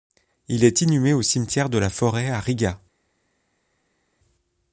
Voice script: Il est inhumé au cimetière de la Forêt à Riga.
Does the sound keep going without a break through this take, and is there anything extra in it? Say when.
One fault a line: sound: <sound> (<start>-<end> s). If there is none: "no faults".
no faults